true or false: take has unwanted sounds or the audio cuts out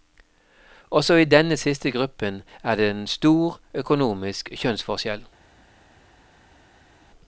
false